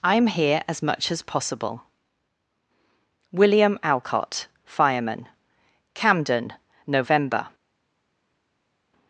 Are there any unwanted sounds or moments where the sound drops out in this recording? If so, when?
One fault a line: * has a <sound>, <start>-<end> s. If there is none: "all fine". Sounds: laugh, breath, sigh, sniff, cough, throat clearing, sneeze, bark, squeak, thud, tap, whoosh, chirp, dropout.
all fine